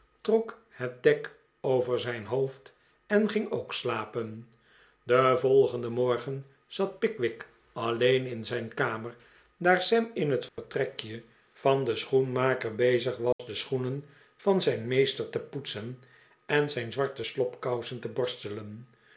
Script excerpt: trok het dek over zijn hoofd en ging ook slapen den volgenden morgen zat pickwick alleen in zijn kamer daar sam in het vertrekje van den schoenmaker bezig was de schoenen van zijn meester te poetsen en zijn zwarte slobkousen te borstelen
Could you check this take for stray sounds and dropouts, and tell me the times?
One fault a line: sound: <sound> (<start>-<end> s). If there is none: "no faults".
sound: dropout (10.5-10.6 s)
sound: dropout (13.3-13.4 s)